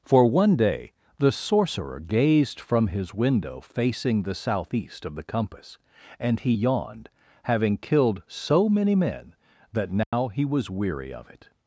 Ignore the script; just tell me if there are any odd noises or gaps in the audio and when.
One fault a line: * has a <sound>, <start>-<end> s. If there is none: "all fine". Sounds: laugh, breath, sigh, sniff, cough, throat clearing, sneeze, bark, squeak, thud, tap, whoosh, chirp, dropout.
* has a dropout, 10.0-10.1 s